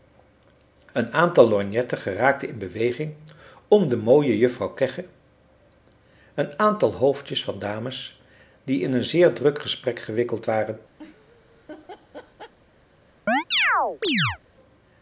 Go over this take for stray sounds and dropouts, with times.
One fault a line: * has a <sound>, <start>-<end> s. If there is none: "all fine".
* has a laugh, 11.0-12.5 s
* has a chirp, 13.3-14.4 s